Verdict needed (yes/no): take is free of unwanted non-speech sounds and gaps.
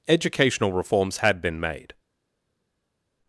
yes